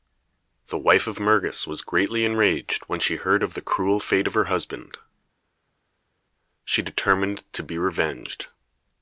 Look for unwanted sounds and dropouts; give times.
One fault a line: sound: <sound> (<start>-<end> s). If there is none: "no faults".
no faults